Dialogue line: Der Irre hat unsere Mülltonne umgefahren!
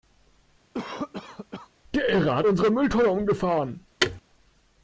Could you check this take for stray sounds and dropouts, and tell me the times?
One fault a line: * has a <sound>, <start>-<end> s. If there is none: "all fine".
* has a cough, 0.7-1.7 s
* has a thud, 4.0-4.2 s